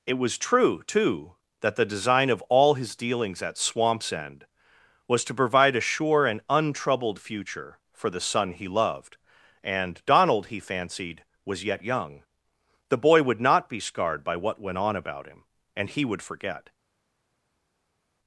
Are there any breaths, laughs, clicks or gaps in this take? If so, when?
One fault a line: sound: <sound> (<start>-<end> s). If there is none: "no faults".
no faults